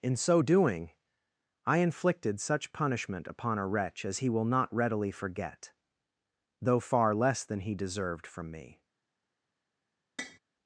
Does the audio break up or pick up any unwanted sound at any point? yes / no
yes